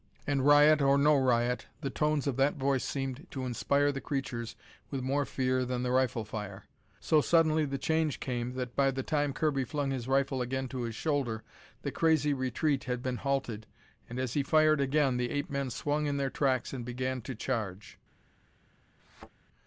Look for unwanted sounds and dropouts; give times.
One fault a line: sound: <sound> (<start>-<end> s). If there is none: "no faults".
sound: thud (19.0-19.3 s)